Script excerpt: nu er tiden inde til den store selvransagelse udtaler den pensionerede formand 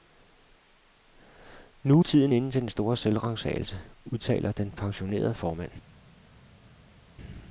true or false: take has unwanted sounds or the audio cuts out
false